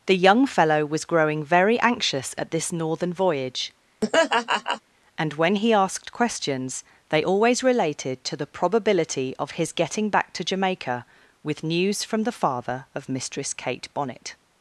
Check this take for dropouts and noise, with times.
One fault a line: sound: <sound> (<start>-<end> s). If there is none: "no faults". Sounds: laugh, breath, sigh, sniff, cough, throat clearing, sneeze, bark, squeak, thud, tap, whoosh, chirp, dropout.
sound: laugh (4.0-4.8 s)